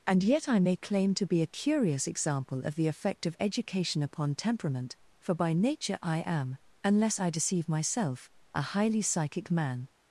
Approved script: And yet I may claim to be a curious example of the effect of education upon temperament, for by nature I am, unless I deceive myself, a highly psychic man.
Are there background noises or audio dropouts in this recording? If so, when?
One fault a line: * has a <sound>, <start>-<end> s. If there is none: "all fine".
all fine